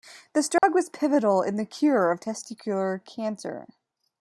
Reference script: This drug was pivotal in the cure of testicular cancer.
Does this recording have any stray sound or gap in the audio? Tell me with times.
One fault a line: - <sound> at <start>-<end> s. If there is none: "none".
- dropout at 0.6-0.6 s